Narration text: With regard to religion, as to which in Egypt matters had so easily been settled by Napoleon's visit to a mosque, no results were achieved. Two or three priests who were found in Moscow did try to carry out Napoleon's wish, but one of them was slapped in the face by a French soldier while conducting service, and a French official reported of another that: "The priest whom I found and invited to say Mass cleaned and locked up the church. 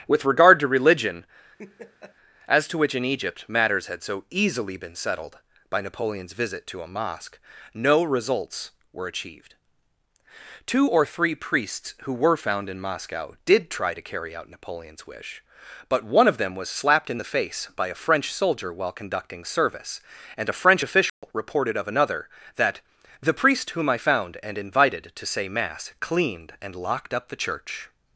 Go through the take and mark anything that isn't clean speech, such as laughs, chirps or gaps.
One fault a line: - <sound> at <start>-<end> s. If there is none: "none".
- laugh at 1.6-2.2 s
- dropout at 21.1-21.2 s